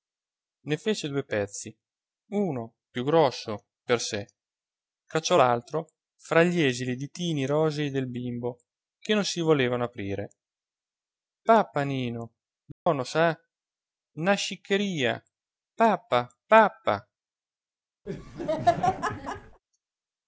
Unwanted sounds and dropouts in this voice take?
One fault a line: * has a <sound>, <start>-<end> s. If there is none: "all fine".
* has a dropout, 12.7-12.9 s
* has a laugh, 18.1-19.6 s